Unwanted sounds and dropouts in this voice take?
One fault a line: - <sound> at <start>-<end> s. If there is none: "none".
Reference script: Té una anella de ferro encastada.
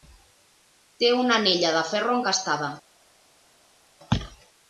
none